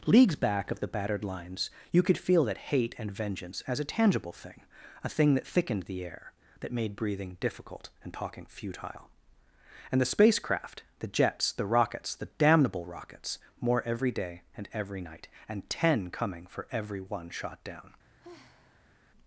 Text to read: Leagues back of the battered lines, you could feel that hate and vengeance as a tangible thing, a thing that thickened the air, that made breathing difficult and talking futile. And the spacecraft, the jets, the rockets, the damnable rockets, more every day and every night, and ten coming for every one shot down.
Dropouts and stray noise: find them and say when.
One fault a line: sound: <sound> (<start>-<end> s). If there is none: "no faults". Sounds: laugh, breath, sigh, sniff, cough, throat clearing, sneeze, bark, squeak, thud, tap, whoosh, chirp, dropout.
sound: sigh (18.1-19.0 s)